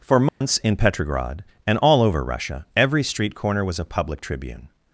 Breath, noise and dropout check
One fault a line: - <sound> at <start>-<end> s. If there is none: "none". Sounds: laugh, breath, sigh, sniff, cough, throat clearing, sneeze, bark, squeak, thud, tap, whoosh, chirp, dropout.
- dropout at 0.3-0.4 s